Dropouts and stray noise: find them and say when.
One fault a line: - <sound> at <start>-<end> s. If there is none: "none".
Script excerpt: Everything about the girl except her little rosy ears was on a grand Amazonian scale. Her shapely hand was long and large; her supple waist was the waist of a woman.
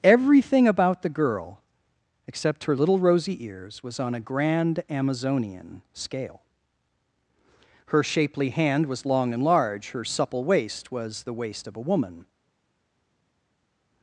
none